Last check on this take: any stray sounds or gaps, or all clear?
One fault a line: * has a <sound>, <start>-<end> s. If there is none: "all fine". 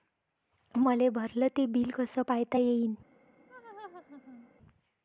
* has a laugh, 3.5-4.5 s